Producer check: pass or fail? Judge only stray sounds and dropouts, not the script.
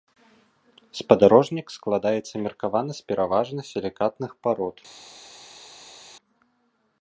pass